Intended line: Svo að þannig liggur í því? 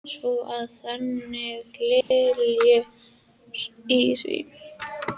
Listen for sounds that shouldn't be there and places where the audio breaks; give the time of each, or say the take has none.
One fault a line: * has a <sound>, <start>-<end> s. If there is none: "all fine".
* has a dropout, 2.0-2.1 s